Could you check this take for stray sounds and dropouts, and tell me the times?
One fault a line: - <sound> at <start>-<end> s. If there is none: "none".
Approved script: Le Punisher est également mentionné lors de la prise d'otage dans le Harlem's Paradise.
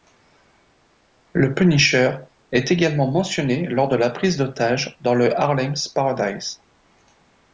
none